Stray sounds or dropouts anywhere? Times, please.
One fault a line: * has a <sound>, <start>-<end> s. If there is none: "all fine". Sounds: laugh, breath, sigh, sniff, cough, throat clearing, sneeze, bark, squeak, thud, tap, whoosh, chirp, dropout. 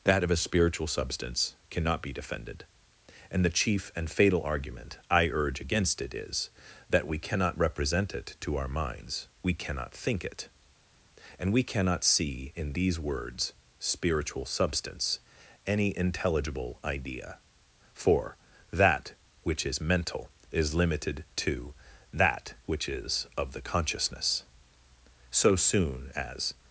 all fine